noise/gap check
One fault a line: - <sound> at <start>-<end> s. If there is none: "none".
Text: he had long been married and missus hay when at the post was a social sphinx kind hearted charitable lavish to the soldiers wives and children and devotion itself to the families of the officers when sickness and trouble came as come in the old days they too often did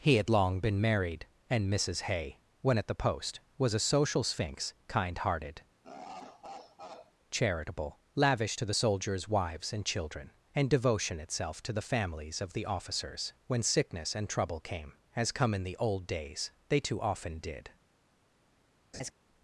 - laugh at 5.8-7.1 s
- laugh at 18.9-19.1 s